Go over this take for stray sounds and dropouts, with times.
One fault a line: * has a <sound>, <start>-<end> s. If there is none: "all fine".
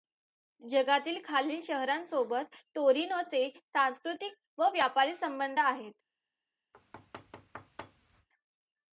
* has a thud, 6.7-8.3 s